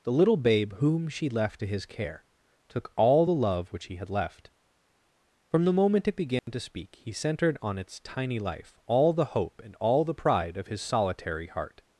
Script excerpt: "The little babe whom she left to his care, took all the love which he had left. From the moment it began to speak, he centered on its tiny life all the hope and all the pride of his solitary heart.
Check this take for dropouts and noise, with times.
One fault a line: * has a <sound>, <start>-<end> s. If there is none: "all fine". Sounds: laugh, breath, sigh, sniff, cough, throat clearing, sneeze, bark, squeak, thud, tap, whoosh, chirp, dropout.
* has a dropout, 6.4-6.5 s